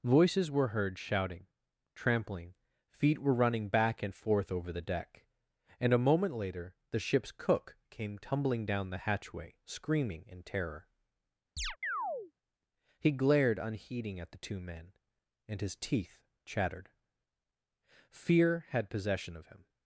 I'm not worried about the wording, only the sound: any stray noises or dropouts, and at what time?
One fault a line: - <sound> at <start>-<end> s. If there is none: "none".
- chirp at 11.6-12.3 s